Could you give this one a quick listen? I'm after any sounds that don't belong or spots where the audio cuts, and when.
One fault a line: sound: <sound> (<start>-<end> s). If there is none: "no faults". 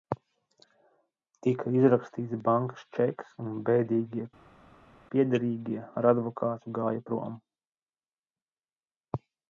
no faults